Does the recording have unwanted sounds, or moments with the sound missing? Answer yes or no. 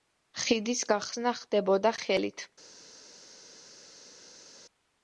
no